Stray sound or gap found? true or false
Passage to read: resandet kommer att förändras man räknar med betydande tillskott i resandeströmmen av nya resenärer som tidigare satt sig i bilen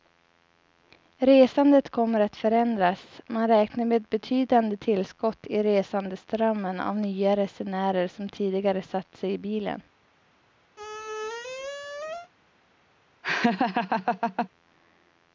true